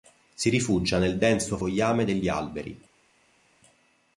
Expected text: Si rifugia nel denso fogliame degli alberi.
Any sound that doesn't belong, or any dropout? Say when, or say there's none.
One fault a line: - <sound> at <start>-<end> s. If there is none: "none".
none